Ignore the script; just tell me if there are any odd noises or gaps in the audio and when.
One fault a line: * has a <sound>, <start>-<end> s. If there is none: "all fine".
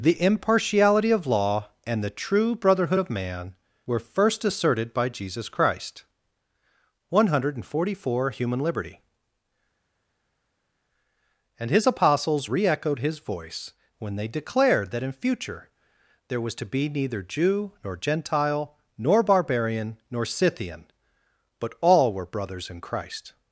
all fine